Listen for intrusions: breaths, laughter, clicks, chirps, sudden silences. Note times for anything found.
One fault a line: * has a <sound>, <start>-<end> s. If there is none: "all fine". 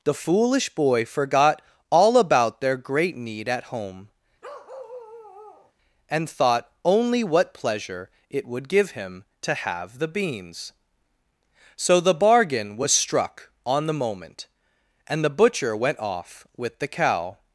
* has a bark, 4.4-5.7 s